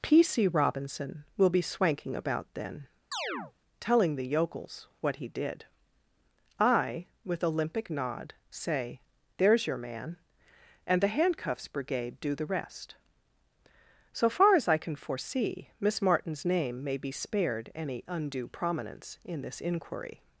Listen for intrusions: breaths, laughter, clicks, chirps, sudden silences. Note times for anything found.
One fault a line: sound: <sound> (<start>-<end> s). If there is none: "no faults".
sound: chirp (3.1-3.5 s)